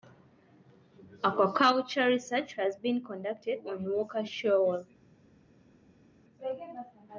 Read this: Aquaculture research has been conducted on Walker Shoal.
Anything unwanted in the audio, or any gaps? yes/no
no